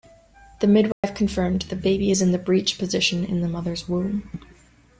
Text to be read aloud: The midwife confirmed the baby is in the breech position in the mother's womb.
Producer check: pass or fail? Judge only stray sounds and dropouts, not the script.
fail